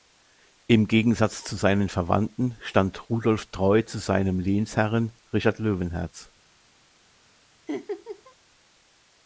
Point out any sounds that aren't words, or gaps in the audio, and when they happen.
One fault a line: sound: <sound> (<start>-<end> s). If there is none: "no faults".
sound: laugh (7.7-8.4 s)